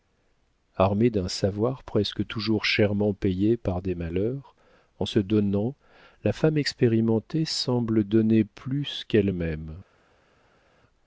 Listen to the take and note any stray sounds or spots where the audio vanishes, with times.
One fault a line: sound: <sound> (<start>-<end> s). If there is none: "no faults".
no faults